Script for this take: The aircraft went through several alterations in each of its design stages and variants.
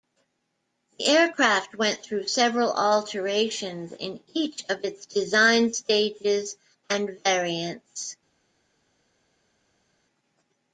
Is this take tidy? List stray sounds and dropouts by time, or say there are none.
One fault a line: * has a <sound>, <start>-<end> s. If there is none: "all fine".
all fine